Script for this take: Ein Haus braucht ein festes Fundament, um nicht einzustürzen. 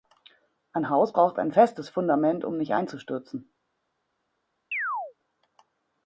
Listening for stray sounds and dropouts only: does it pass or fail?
fail